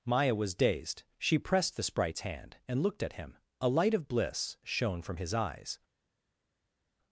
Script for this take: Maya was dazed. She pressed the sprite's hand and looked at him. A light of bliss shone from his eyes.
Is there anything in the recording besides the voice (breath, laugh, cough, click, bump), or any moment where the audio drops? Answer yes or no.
no